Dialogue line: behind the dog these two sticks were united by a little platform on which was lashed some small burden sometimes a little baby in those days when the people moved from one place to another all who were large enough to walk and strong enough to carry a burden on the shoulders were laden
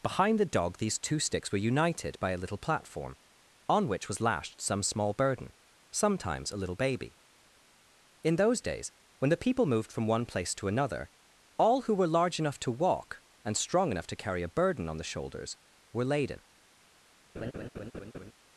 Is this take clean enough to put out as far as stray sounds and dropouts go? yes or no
no